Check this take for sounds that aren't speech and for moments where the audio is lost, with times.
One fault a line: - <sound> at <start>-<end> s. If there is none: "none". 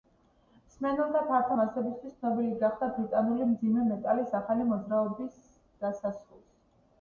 none